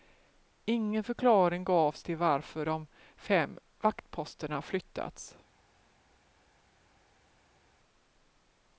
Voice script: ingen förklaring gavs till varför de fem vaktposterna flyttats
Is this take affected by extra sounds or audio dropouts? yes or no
no